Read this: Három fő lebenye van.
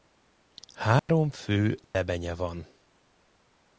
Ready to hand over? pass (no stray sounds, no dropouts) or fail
fail